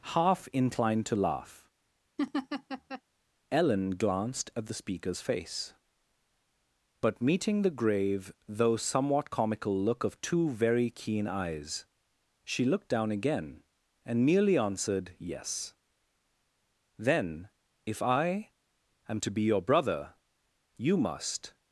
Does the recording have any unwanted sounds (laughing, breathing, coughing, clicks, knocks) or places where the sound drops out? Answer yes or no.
yes